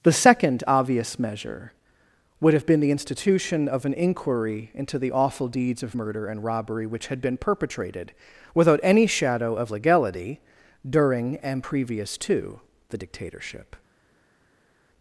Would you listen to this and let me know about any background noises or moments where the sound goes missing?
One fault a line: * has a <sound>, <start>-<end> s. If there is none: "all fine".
all fine